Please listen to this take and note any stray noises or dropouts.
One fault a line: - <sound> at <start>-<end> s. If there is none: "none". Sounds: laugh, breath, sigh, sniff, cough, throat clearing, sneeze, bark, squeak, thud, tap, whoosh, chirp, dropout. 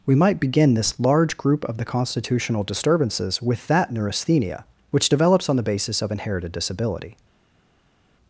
none